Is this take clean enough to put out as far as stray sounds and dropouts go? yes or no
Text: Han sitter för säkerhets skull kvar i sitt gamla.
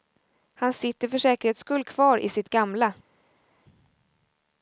yes